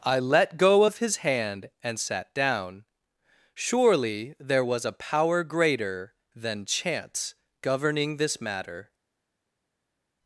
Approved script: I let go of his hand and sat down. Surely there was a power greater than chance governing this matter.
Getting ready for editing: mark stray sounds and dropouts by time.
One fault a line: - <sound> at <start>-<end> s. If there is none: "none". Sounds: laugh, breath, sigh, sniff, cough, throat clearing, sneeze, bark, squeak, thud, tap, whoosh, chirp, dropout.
none